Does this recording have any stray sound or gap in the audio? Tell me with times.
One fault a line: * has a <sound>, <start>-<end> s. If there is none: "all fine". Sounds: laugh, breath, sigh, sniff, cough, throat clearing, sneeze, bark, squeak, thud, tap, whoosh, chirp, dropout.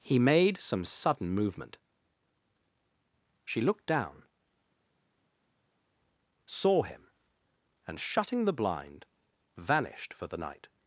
all fine